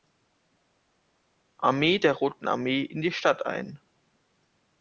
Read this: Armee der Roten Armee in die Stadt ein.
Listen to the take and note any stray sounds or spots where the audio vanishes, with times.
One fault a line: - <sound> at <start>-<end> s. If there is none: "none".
none